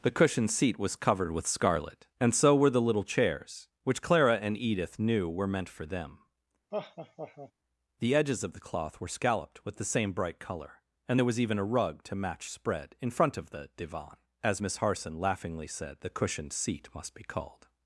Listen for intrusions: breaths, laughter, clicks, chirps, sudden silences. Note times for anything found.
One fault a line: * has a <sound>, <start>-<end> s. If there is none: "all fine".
* has a laugh, 6.7-7.5 s